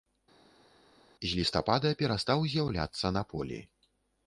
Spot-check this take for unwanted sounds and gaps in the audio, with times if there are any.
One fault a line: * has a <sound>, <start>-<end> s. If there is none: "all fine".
all fine